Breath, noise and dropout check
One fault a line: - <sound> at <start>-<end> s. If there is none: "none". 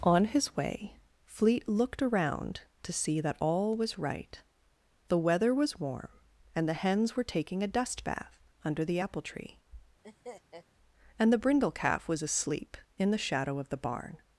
- laugh at 10.0-10.7 s